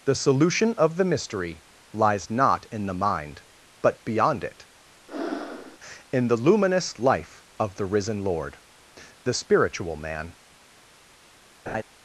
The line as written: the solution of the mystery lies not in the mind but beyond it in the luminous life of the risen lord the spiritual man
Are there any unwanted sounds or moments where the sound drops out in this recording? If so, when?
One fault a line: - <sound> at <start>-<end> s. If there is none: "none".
- breath at 5.1-5.8 s
- laugh at 11.7-11.8 s